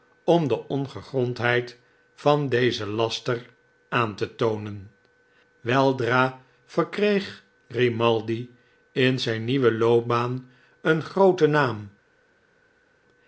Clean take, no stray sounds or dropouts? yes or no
yes